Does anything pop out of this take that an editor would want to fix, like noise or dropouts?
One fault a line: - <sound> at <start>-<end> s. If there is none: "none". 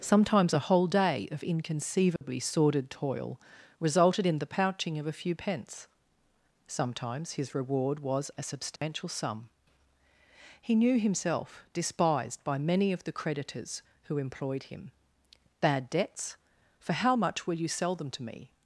- dropout at 2.2-2.2 s
- dropout at 8.8-8.8 s